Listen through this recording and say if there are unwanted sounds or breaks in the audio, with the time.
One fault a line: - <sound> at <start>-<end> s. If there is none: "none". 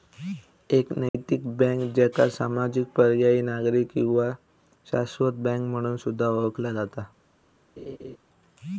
- dropout at 1.1-1.1 s
- laugh at 7.8-8.2 s